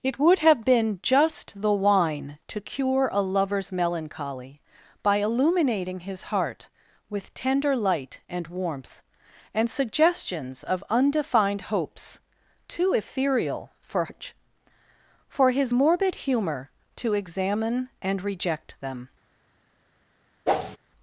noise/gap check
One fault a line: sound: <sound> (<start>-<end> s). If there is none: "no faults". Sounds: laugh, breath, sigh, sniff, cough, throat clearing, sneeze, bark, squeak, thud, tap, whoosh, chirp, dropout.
sound: whoosh (20.5-20.8 s)